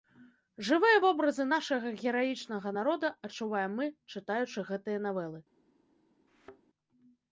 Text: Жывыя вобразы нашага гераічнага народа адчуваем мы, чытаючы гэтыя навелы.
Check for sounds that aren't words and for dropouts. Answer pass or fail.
fail